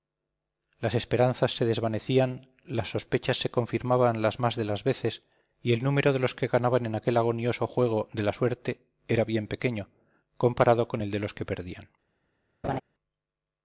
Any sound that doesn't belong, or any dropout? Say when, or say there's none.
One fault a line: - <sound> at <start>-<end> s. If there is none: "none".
- laugh at 12.6-12.8 s